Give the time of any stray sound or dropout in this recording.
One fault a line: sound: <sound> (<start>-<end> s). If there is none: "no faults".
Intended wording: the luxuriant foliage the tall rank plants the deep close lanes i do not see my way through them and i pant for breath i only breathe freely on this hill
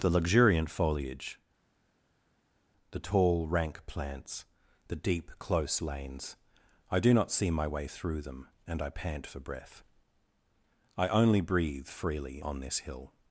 no faults